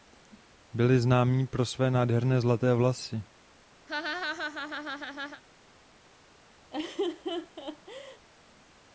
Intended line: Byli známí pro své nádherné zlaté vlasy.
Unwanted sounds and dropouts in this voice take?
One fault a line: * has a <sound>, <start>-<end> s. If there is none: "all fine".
* has a laugh, 3.9-5.4 s
* has a laugh, 6.7-8.3 s